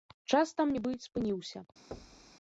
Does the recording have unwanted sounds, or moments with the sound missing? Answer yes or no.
yes